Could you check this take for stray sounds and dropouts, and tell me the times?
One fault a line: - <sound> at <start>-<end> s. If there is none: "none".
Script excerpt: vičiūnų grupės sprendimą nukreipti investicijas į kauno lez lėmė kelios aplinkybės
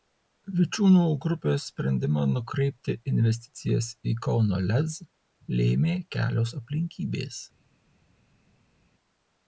none